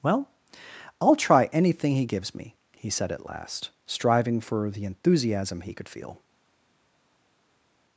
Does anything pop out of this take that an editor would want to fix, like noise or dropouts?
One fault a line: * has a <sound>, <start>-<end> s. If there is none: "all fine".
all fine